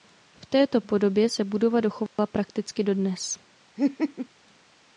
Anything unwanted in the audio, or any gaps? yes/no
yes